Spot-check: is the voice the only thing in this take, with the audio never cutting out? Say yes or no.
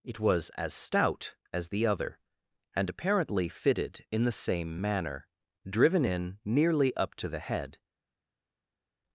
yes